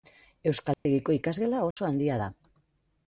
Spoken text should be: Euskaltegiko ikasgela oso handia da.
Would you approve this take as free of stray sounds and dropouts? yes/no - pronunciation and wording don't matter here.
no